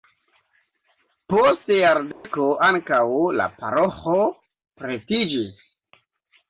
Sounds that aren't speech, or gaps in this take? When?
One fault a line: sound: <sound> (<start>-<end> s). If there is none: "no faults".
sound: dropout (2.1-2.2 s)